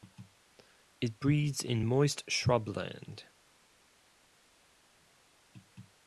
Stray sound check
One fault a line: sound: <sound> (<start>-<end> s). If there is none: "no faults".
no faults